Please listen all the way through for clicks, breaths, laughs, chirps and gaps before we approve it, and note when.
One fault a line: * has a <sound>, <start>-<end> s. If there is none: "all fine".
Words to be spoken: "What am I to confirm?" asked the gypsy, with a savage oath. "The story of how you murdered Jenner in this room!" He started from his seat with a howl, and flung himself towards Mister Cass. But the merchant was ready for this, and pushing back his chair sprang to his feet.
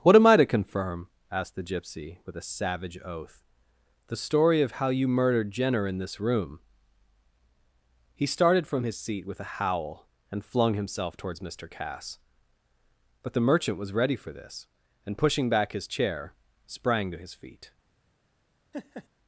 * has a laugh, 18.7-19.1 s